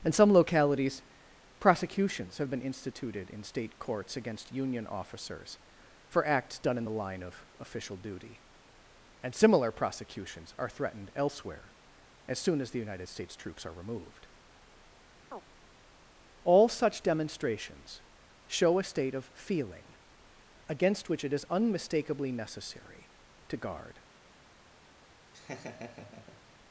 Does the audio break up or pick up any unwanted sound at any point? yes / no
yes